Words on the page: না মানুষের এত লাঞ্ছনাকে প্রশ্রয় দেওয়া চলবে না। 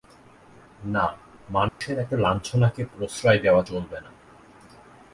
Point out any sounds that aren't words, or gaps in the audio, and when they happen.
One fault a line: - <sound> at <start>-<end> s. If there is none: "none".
- dropout at 1.7-1.8 s